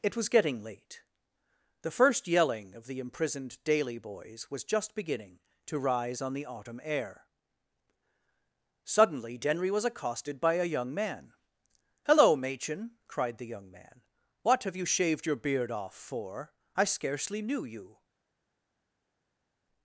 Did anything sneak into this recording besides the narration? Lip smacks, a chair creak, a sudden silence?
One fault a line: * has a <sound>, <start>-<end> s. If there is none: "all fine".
all fine